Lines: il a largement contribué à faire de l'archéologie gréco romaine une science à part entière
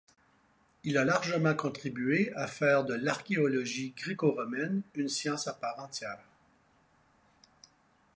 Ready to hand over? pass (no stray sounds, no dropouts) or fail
pass